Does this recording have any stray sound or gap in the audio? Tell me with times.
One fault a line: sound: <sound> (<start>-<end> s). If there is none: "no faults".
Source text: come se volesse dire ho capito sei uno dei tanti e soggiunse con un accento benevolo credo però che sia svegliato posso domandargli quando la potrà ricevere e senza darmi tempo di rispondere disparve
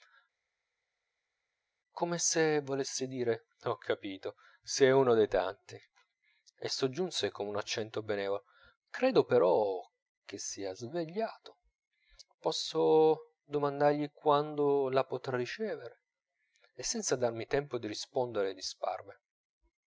no faults